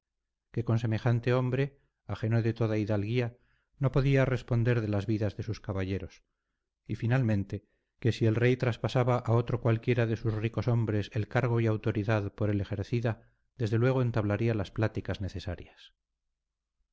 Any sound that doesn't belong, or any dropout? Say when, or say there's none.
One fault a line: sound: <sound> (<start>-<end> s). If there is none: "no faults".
no faults